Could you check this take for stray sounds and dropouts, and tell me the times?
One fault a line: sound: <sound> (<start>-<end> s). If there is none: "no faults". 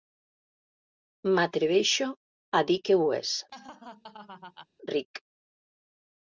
sound: laugh (3.5-4.7 s)